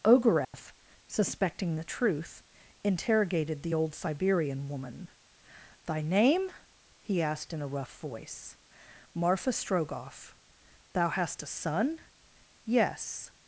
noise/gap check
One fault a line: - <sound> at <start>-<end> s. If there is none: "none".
- dropout at 0.4-0.5 s